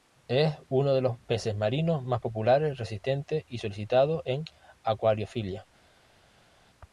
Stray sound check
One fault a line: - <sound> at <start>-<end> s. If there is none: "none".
none